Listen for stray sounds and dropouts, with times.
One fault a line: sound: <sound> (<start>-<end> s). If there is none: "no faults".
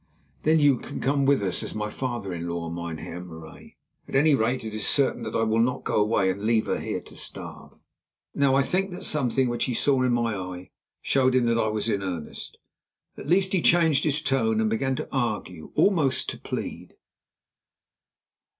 no faults